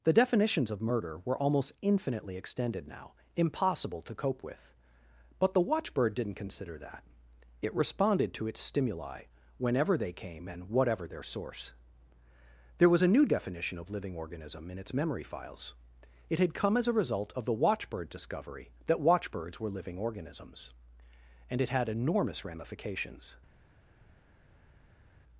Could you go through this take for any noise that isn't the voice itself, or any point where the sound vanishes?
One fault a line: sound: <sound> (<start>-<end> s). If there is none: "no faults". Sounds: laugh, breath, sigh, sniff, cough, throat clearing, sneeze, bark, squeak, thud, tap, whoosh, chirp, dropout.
no faults